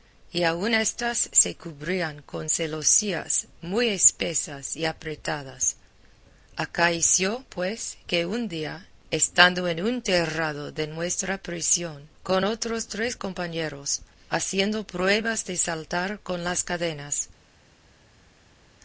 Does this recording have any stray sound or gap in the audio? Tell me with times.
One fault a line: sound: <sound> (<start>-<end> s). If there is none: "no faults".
no faults